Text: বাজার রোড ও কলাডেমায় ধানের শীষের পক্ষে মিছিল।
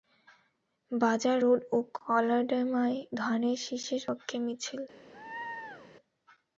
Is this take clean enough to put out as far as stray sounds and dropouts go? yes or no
no